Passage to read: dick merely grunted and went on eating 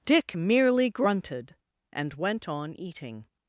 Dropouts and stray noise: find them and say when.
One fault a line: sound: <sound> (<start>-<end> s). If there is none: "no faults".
no faults